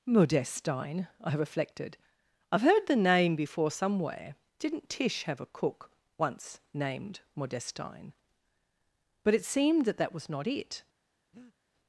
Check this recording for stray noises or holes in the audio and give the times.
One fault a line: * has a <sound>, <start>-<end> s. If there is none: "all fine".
* has a breath, 11.3-11.6 s